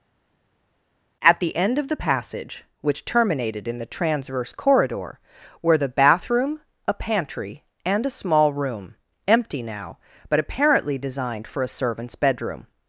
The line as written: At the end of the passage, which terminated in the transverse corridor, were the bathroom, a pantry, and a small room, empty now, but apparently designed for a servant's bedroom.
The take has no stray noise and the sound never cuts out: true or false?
true